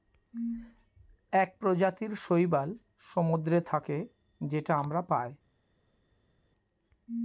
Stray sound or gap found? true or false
false